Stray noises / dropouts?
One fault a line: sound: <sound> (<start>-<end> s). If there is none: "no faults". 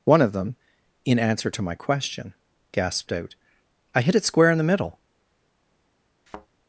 sound: thud (6.3-6.5 s)